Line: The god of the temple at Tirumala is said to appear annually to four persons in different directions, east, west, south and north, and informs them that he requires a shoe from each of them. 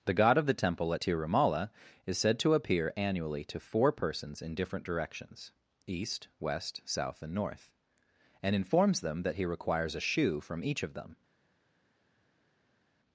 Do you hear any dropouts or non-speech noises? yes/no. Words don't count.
no